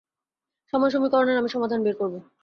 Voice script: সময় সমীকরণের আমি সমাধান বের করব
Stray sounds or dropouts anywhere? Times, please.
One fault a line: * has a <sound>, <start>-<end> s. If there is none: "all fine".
all fine